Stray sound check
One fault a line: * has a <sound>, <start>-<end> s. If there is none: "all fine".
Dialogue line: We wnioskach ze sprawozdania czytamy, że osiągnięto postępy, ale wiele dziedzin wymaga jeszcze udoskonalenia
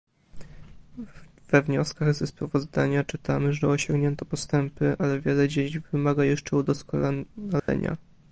* has a dropout, 7.6-7.7 s